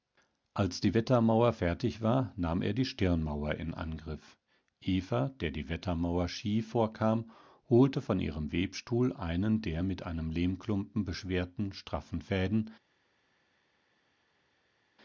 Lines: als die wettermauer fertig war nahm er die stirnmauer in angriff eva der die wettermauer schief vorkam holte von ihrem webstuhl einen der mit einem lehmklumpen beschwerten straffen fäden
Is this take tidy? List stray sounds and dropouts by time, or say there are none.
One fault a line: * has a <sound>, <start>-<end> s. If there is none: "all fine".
all fine